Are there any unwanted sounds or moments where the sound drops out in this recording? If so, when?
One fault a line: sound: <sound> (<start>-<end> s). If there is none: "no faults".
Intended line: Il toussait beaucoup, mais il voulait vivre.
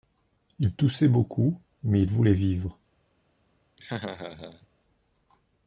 sound: laugh (3.8-4.7 s)